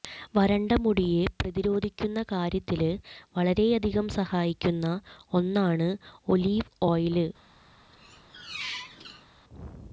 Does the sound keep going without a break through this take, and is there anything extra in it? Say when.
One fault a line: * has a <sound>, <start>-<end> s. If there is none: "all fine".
* has a squeak, 7.9-9.3 s